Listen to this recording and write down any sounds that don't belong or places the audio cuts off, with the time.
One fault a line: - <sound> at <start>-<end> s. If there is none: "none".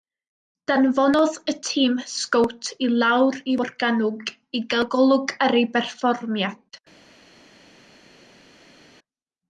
none